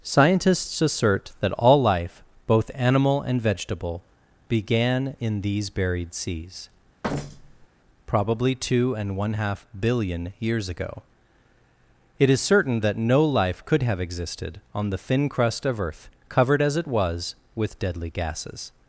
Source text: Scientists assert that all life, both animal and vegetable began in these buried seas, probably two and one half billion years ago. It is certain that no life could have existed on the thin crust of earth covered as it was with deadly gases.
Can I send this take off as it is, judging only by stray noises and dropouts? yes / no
no